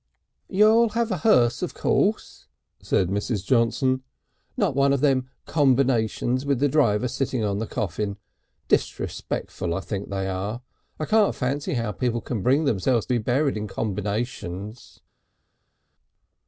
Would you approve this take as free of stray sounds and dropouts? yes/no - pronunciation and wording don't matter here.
yes